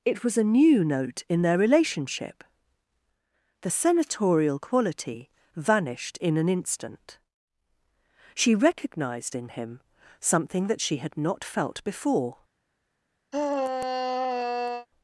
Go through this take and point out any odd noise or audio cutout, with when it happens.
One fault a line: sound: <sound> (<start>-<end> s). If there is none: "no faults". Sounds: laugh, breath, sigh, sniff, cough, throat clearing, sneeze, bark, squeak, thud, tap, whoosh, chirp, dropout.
sound: sigh (13.3-14.9 s)